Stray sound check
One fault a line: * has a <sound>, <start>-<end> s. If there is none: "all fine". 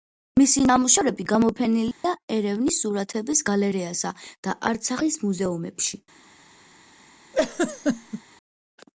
* has a dropout, 1.9-2.0 s
* has a laugh, 7.3-8.2 s